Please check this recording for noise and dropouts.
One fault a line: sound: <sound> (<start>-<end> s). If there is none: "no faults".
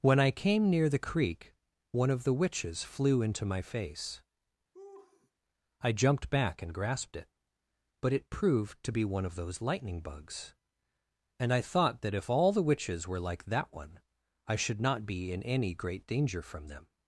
sound: laugh (4.7-5.3 s)